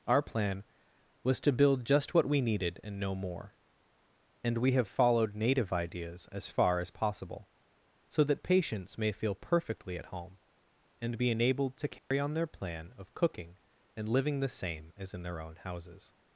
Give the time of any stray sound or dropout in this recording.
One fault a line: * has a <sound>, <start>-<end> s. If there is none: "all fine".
* has a dropout, 12.0-12.1 s